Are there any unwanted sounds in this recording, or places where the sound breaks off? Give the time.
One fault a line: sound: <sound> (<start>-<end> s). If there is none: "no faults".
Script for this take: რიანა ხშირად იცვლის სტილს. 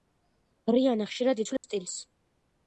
sound: dropout (1.6-1.6 s)